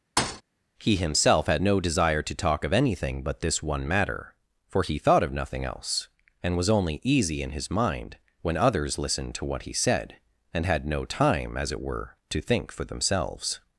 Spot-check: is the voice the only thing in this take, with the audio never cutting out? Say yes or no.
no